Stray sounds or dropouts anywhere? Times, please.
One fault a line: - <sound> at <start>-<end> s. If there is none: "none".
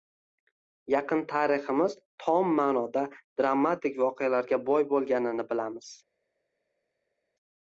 none